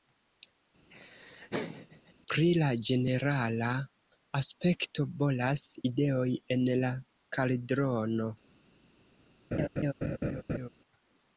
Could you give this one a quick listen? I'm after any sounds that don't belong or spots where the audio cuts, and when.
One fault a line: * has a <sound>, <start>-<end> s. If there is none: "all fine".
* has a laugh, 0.9-2.1 s
* has a laugh, 9.5-10.7 s